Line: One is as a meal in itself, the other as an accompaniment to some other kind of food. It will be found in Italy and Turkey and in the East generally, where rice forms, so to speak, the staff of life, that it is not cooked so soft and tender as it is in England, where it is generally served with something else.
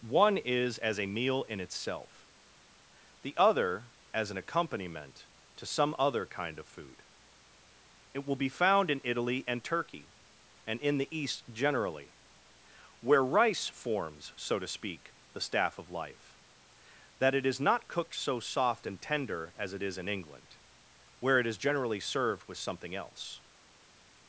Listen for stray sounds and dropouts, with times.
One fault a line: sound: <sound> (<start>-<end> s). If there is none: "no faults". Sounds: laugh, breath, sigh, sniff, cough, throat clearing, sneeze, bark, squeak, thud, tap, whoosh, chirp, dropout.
no faults